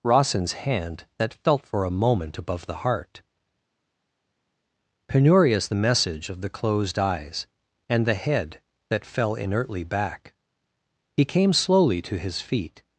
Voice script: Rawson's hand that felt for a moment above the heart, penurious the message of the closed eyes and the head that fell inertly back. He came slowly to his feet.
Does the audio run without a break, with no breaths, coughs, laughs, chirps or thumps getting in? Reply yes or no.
yes